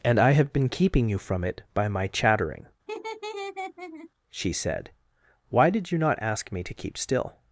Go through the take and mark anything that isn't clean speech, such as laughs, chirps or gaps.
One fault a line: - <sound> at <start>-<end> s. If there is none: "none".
- laugh at 2.9-4.1 s